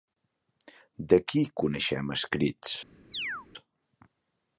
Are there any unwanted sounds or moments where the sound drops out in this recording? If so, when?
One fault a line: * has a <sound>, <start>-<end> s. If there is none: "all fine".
* has a chirp, 3.1-3.5 s